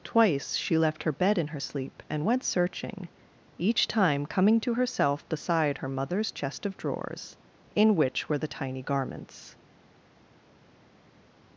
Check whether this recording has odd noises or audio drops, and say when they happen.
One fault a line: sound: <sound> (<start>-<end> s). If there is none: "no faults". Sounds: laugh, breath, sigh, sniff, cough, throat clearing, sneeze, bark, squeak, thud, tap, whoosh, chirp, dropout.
no faults